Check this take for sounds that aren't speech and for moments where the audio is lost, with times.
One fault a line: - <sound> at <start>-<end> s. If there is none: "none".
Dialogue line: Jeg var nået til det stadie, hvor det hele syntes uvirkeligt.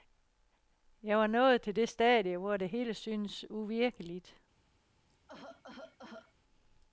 - cough at 5.1-6.3 s